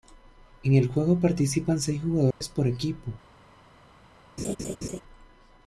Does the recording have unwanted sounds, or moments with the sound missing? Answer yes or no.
yes